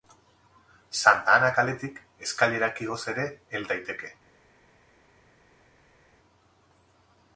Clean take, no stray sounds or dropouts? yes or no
yes